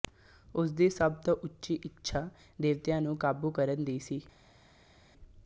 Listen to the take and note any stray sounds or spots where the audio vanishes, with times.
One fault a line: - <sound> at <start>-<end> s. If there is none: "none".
none